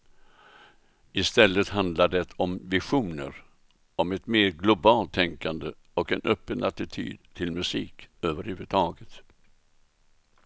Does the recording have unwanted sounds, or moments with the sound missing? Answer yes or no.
no